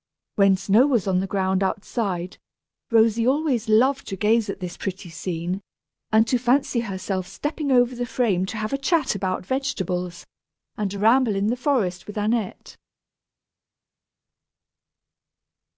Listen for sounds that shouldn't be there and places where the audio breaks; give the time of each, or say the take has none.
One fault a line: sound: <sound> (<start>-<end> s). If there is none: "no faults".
no faults